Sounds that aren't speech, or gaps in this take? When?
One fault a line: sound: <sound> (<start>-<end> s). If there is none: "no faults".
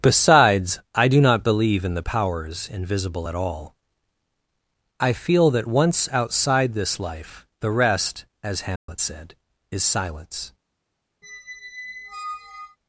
sound: dropout (8.8-8.9 s)
sound: squeak (11.2-12.8 s)